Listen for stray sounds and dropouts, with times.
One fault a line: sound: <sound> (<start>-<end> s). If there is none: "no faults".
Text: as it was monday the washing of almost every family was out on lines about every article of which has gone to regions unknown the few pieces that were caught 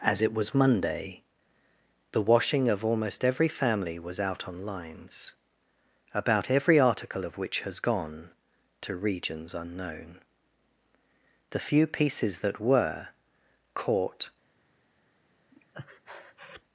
sound: breath (15.5-16.6 s)